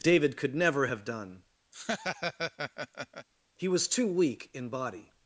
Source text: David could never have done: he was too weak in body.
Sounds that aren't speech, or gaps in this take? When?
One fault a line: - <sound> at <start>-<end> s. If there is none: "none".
- laugh at 1.7-3.3 s